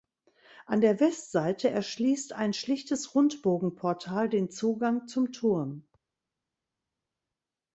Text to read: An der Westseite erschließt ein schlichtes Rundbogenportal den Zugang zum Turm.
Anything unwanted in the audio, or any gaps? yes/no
no